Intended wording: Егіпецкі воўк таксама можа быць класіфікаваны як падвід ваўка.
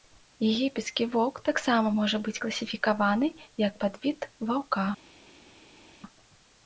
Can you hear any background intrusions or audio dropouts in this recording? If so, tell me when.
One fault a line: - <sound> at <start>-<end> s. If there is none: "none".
none